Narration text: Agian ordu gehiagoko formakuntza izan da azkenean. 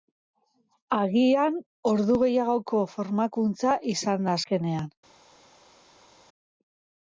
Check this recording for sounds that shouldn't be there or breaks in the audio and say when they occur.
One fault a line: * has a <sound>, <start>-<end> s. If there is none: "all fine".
all fine